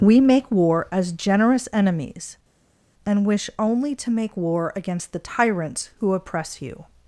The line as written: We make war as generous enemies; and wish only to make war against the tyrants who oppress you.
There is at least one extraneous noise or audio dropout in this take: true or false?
false